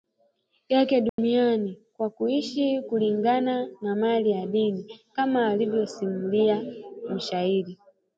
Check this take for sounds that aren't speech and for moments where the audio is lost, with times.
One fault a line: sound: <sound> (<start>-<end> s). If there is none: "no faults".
sound: dropout (1.1-1.2 s)